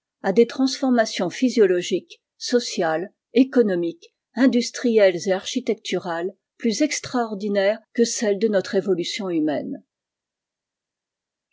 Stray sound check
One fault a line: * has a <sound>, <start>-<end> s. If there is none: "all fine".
all fine